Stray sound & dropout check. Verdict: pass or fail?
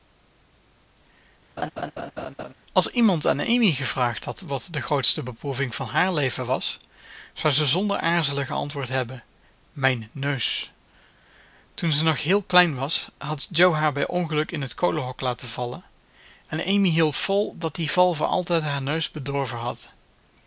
fail